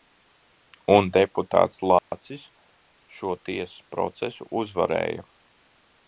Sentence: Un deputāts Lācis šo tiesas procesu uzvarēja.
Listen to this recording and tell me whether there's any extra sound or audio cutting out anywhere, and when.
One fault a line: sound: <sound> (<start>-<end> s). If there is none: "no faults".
sound: dropout (2.0-2.1 s)